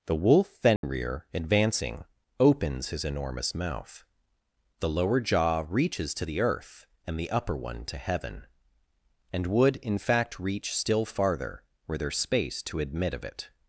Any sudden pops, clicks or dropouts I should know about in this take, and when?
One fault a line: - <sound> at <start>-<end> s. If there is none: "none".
- dropout at 0.8-0.8 s